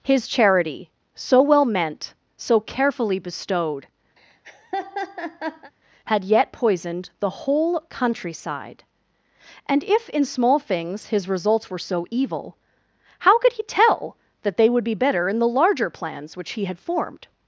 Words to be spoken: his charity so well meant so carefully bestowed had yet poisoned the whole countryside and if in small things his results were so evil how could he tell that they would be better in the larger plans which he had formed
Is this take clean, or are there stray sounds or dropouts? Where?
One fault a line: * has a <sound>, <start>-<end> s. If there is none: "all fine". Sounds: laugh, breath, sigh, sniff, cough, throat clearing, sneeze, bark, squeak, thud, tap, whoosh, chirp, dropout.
* has a laugh, 4.2-5.7 s